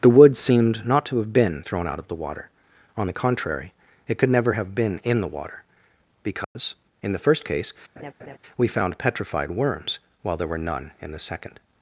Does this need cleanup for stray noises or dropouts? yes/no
yes